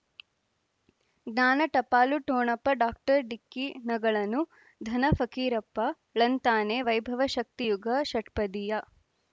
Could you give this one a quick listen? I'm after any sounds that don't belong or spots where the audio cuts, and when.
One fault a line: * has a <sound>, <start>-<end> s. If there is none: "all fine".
all fine